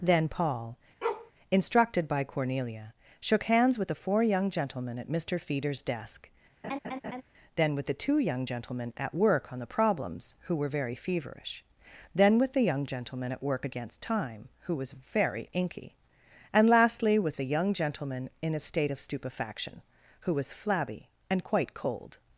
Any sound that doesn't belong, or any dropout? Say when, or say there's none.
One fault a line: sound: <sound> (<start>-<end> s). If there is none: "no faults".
sound: bark (1.0-1.3 s)
sound: laugh (6.6-7.2 s)